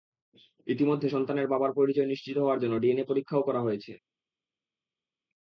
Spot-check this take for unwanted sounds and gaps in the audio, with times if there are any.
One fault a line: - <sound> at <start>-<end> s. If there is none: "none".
none